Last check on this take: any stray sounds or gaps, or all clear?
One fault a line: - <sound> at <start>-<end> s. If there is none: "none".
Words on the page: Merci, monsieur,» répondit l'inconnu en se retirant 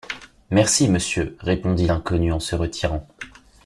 none